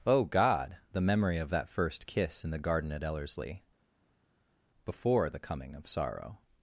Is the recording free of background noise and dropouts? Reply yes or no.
yes